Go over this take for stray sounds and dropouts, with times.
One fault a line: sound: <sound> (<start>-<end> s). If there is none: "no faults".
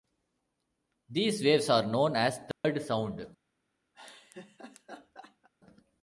sound: dropout (2.5-2.6 s)
sound: laugh (3.9-5.5 s)